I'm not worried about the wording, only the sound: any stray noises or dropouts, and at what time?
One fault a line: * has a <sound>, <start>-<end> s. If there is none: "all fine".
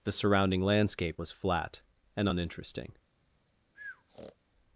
* has a breath, 3.7-4.4 s